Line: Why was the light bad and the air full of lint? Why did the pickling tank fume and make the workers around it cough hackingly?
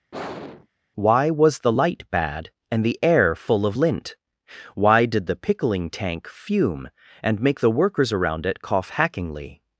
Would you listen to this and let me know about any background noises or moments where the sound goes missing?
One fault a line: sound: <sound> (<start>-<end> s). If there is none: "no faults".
sound: sigh (0.1-0.7 s)